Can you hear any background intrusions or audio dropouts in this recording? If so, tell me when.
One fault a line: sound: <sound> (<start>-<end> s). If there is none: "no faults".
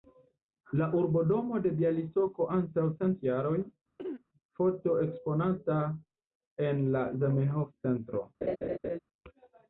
sound: throat clearing (4.0-4.2 s)
sound: laugh (8.4-9.0 s)